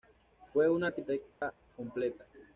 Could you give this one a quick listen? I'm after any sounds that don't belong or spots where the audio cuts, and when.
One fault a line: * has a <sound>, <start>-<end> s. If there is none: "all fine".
* has a dropout, 1.3-1.4 s